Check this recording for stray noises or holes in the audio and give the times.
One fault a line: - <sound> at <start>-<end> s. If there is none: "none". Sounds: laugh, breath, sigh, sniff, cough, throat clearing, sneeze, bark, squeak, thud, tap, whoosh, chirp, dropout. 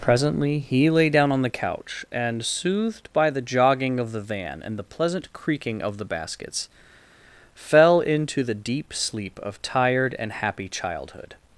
none